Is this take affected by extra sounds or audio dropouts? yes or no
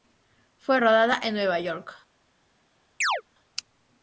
yes